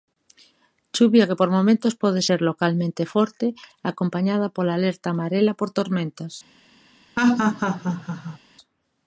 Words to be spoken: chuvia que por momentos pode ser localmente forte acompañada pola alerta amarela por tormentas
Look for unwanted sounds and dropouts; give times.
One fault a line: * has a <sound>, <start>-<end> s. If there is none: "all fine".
* has a laugh, 7.2-8.4 s